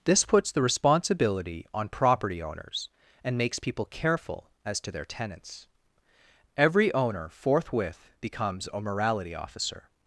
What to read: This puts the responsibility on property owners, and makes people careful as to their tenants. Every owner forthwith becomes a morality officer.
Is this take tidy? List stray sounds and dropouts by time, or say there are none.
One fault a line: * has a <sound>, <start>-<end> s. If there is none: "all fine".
all fine